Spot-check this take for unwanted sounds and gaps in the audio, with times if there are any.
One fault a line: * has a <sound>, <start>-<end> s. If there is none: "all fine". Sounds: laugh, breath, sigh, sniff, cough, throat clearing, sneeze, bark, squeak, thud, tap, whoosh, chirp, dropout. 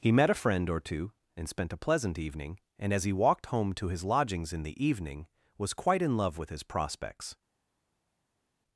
all fine